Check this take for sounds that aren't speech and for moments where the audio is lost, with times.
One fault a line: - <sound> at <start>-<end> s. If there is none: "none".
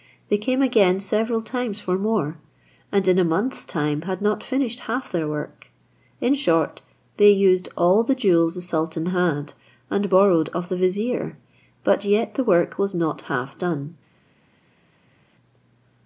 none